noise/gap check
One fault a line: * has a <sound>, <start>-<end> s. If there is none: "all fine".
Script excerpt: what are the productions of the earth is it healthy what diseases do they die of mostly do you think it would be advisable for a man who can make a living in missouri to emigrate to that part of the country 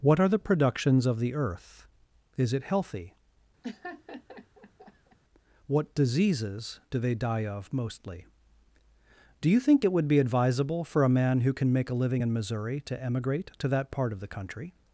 * has a laugh, 3.6-5.2 s